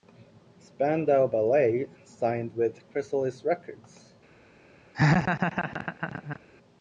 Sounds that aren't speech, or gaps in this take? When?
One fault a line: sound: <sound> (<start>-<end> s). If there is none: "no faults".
sound: laugh (4.9-6.4 s)